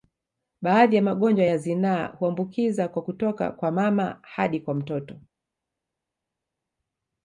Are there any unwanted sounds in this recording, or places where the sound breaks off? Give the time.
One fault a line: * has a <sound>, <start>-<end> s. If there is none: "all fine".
all fine